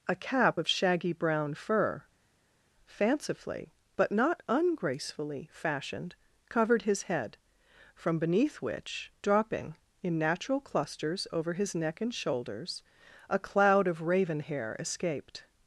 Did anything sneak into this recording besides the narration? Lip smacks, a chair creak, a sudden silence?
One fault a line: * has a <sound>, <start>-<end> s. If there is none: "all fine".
all fine